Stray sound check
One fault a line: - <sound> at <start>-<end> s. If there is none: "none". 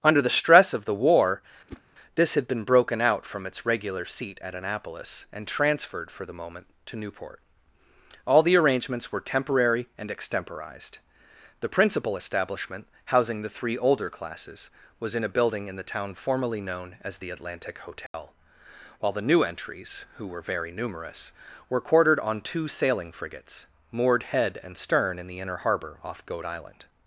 - whoosh at 1.7-1.8 s
- dropout at 18.1-18.1 s